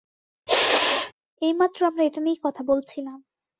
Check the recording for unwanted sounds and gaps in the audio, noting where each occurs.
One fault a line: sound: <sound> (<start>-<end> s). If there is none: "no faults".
sound: sneeze (0.5-1.1 s)